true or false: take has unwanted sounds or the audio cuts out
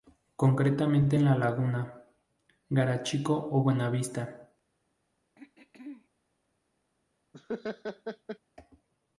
true